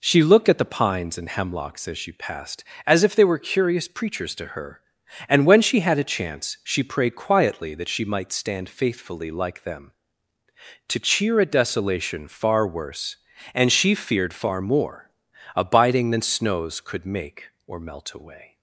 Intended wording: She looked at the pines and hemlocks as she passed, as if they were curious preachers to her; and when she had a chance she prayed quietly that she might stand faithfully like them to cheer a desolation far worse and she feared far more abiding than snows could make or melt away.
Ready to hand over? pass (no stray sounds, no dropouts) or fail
pass